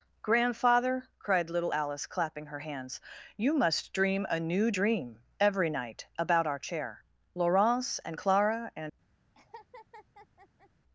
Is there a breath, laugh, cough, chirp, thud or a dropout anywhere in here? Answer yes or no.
yes